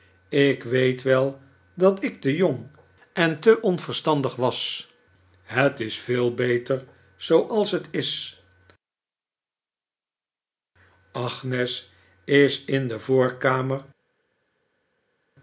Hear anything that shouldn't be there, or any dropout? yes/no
no